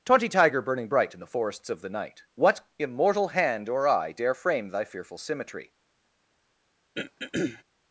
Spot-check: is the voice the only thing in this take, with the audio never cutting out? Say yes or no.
no